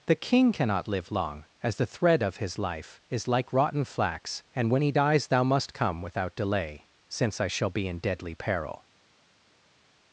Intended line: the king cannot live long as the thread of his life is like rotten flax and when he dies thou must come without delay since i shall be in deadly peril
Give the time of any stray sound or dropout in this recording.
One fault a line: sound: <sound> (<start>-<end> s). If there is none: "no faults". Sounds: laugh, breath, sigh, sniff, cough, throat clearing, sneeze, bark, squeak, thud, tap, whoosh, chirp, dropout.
no faults